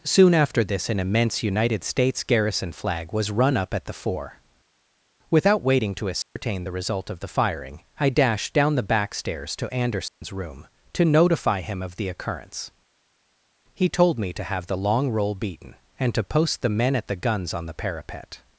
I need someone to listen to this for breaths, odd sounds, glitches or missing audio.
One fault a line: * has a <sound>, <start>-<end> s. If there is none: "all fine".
* has a dropout, 6.2-6.4 s
* has a dropout, 10.1-10.2 s